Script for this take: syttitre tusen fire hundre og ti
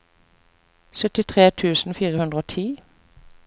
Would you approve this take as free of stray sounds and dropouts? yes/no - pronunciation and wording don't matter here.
yes